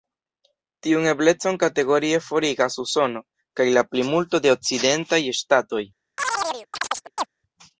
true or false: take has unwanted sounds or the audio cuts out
true